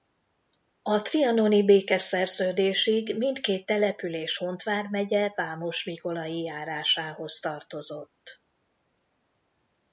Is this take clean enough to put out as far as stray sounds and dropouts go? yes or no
yes